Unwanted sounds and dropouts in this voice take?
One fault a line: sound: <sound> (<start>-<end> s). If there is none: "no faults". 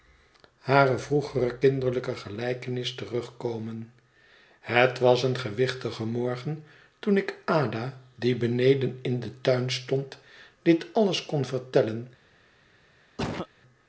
sound: cough (13.2-13.5 s)